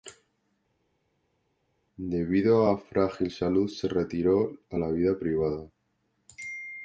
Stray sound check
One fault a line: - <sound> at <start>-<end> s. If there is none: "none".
none